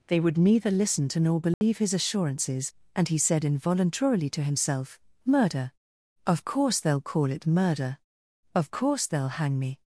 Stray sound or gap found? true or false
true